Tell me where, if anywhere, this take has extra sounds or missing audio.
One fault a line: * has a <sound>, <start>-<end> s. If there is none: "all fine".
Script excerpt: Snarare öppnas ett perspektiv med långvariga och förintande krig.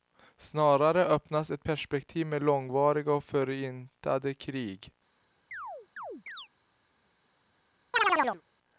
* has a chirp, 5.5-6.5 s
* has a chirp, 7.9-8.4 s